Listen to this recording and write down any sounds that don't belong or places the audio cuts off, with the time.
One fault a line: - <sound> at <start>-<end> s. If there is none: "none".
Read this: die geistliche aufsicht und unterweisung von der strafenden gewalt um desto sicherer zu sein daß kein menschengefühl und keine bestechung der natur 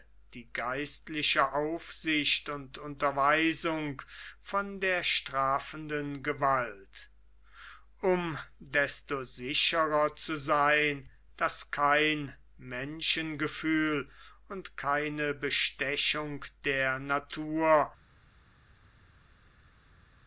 none